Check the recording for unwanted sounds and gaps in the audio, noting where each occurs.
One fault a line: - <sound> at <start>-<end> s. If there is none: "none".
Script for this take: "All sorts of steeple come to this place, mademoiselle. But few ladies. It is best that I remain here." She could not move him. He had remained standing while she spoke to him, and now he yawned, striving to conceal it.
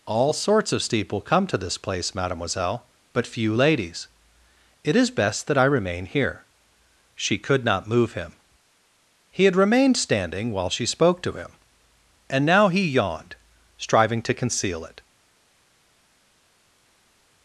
none